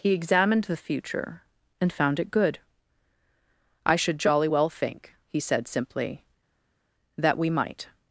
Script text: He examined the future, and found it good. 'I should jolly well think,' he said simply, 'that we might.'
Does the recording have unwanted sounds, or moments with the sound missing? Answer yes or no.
no